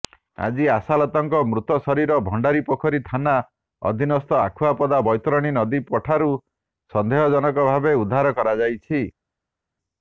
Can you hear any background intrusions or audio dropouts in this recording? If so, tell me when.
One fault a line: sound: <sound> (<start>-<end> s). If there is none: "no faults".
no faults